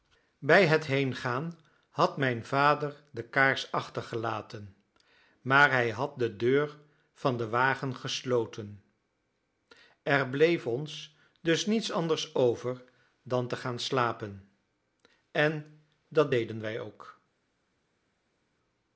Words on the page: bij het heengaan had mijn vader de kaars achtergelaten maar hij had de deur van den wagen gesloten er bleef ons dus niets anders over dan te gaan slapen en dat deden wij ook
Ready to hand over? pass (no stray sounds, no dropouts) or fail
pass